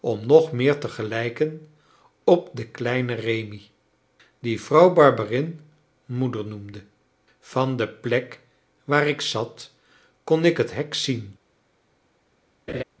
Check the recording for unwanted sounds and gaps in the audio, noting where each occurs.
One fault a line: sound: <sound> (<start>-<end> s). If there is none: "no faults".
sound: laugh (12.7-12.8 s)